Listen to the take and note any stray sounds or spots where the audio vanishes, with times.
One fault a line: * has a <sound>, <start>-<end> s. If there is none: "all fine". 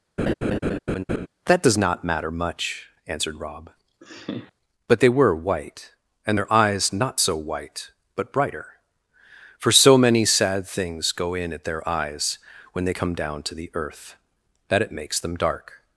* has a laugh, 0.2-1.3 s
* has a laugh, 4.0-4.5 s